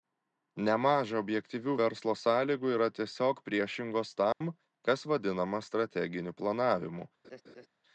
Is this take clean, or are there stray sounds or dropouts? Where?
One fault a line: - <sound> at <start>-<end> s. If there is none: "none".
- dropout at 4.3-4.4 s
- laugh at 7.2-7.7 s